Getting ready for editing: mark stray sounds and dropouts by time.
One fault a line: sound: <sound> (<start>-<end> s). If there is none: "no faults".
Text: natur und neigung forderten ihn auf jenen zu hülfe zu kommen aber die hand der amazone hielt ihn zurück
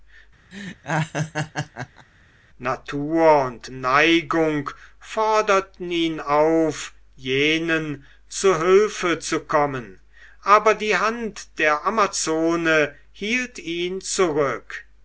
sound: laugh (0.5-2.1 s)